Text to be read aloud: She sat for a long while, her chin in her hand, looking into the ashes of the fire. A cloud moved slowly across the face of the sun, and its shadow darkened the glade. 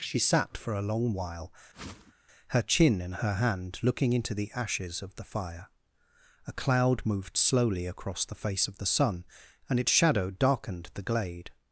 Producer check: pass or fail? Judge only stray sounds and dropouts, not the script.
fail